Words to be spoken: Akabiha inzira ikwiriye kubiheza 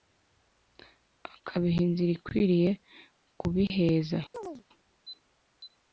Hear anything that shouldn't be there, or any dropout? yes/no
yes